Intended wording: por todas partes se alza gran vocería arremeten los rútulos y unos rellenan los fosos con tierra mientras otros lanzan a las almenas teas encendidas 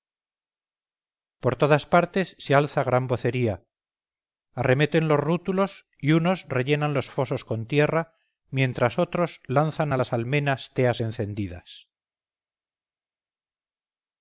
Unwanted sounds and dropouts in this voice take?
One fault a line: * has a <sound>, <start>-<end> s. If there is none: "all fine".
all fine